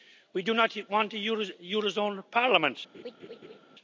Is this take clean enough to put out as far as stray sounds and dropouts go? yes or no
no